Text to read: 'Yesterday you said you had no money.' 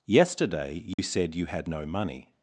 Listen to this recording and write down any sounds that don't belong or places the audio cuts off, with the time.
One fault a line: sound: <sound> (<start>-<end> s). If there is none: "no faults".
sound: dropout (0.9-1.0 s)